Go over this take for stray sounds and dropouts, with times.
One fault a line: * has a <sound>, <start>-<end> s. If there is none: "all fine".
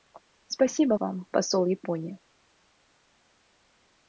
all fine